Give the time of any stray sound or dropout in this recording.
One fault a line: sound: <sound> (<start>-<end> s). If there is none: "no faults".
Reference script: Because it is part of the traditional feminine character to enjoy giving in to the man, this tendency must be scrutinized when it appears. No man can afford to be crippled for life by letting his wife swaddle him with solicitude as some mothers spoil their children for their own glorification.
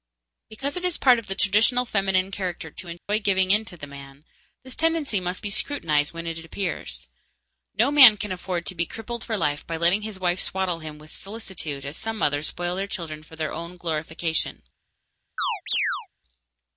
sound: dropout (3.0-3.1 s)
sound: chirp (15.4-16.1 s)